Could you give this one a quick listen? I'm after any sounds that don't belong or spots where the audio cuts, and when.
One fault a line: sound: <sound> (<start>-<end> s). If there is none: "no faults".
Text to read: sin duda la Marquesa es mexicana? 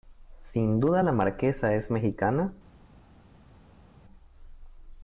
no faults